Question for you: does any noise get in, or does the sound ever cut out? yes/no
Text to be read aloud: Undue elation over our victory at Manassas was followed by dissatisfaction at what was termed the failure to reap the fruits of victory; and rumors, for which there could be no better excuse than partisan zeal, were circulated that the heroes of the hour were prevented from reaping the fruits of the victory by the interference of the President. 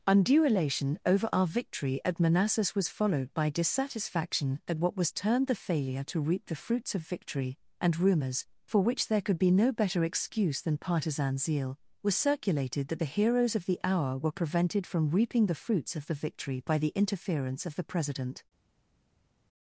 no